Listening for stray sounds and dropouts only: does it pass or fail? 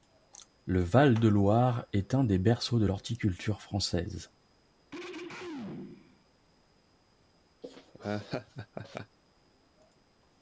fail